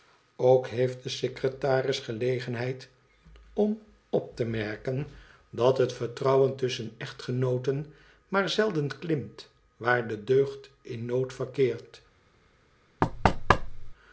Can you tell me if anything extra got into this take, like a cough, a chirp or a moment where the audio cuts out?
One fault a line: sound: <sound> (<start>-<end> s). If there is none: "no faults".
sound: thud (13.0-13.9 s)